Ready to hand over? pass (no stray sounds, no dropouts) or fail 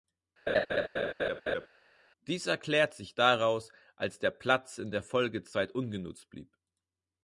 fail